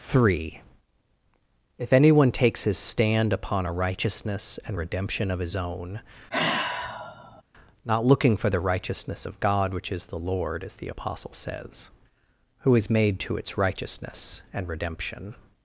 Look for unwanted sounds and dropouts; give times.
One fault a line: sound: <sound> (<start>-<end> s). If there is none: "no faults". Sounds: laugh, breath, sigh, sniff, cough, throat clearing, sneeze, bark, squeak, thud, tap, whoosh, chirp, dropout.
sound: sigh (6.3-7.4 s)